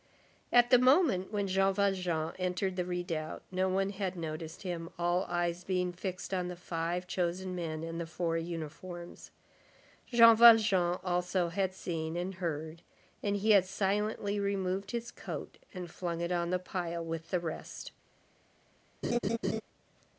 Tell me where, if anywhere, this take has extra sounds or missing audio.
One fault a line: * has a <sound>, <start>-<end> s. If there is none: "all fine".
* has a laugh, 19.0-19.6 s